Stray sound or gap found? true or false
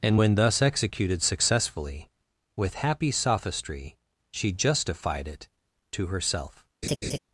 true